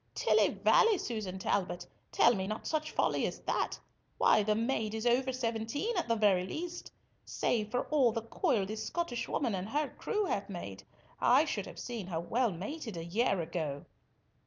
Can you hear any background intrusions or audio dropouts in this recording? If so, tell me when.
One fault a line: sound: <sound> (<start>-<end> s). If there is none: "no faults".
no faults